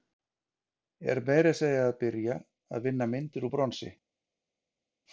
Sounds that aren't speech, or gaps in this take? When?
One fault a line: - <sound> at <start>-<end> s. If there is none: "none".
none